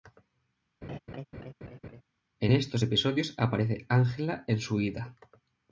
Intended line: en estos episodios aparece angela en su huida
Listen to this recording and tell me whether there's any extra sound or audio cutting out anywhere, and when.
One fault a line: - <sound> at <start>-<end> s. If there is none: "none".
- laugh at 0.8-2.0 s